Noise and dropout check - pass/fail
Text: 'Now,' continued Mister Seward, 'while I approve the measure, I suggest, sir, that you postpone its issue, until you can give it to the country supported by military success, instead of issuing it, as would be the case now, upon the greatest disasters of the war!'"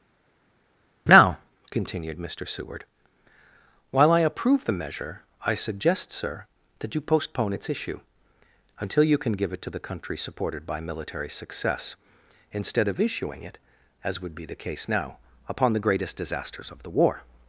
pass